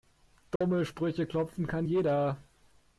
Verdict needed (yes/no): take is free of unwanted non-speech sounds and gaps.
no